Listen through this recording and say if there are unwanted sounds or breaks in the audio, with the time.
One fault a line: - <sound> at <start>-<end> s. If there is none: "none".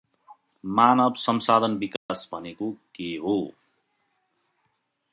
- dropout at 2.0-2.1 s